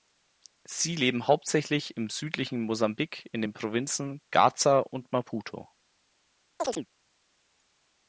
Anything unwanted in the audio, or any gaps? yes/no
yes